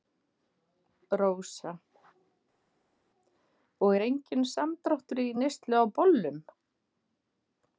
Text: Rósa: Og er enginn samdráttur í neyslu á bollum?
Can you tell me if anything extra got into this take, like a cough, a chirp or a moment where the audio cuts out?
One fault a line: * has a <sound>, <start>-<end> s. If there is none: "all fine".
all fine